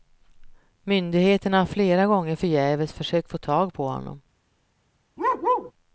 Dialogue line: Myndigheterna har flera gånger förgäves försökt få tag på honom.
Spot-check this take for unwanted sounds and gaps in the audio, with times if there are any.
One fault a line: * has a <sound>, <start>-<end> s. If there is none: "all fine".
* has a bark, 5.2-5.7 s